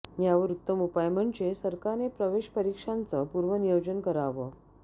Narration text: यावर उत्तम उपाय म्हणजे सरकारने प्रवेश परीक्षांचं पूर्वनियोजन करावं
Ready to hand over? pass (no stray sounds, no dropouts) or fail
pass